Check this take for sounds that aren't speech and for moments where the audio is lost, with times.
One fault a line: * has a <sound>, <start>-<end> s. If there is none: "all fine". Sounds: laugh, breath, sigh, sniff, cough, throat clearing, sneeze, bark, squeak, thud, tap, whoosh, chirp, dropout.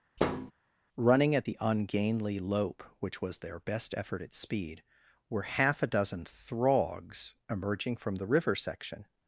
* has a thud, 0.2-0.5 s